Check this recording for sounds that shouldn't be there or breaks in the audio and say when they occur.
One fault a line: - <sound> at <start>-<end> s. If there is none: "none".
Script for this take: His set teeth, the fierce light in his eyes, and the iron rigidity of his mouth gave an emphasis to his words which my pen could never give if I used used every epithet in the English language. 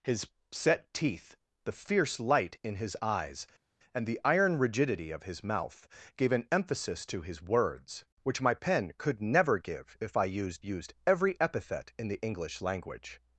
none